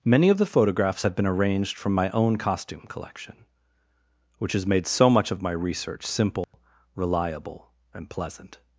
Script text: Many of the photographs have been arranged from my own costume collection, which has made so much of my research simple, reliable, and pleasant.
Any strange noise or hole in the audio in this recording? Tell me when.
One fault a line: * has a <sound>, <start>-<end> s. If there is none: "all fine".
* has a dropout, 6.4-6.5 s